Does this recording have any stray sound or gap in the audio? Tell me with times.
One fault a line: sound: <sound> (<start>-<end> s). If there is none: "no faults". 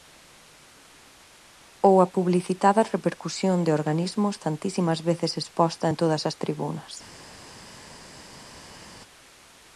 no faults